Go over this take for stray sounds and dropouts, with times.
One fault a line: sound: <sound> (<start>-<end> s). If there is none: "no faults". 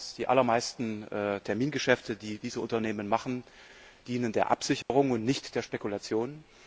sound: dropout (4.8-4.9 s)